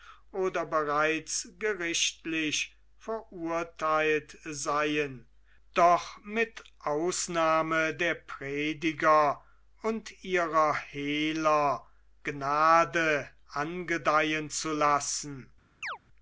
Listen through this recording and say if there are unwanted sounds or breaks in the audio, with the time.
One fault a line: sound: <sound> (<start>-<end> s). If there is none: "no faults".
sound: chirp (15.8-16.0 s)